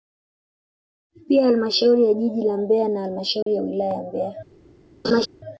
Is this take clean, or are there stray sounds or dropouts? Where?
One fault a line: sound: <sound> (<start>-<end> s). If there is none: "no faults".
sound: dropout (3.4-3.5 s)
sound: laugh (5.0-5.3 s)